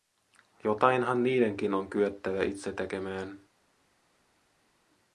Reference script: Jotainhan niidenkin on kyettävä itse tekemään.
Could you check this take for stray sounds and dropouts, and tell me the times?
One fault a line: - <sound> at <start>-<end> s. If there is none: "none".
none